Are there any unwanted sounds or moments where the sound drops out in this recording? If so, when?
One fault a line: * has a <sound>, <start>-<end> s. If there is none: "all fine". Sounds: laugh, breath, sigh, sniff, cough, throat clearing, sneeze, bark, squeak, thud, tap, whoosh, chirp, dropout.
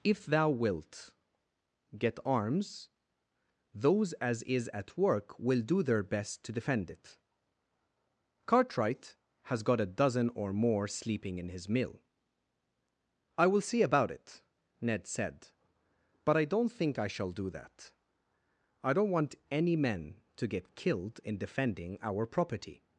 all fine